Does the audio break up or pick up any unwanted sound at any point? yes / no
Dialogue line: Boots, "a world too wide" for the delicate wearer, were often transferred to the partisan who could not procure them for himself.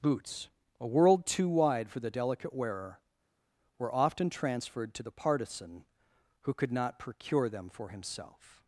no